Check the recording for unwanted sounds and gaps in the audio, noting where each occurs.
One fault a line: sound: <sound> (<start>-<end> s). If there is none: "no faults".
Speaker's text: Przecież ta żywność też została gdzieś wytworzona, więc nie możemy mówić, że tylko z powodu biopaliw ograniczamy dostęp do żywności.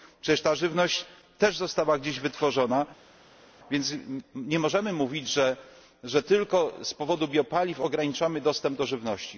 no faults